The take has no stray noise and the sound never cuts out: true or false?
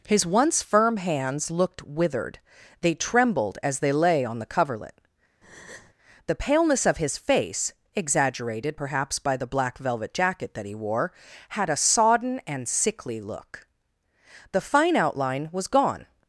false